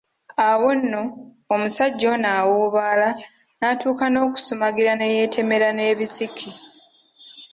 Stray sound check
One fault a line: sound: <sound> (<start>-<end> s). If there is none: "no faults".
no faults